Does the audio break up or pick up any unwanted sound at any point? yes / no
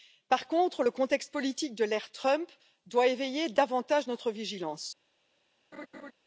yes